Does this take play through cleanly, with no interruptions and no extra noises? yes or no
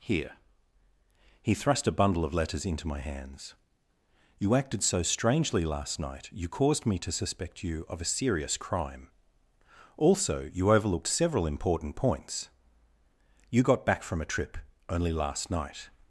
yes